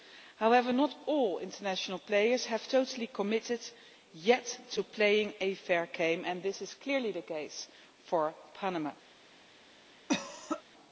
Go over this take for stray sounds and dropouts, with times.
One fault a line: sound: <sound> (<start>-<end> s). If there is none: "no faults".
sound: cough (10.1-10.6 s)